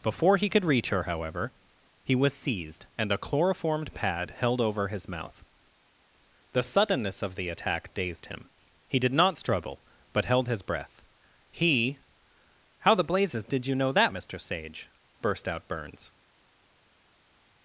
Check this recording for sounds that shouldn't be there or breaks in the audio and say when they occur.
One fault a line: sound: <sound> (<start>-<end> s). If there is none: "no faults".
no faults